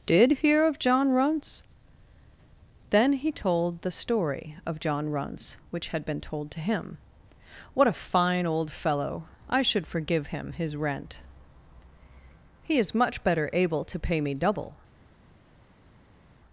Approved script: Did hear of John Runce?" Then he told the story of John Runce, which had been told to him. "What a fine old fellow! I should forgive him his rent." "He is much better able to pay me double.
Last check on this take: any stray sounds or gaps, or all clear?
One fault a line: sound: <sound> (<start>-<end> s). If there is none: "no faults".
no faults